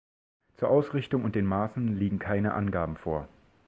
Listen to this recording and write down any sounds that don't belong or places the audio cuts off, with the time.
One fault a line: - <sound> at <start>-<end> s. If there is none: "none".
none